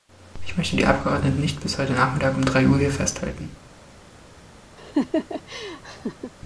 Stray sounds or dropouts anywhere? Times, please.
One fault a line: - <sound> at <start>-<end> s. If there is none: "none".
- laugh at 4.8-6.3 s